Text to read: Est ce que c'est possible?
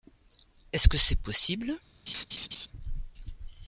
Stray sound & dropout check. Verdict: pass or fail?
fail